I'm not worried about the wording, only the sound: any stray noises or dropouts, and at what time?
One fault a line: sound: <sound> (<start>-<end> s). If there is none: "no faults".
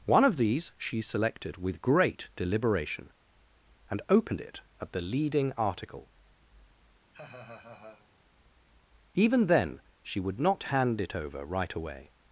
sound: laugh (7.1-8.1 s)